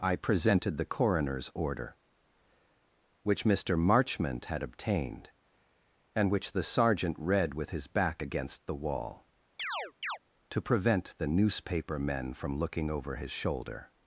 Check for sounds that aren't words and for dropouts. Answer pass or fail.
fail